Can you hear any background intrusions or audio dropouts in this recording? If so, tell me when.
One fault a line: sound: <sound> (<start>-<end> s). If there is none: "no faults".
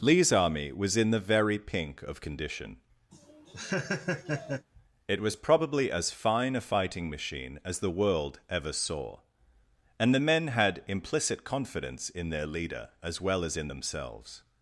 sound: laugh (3.1-4.7 s)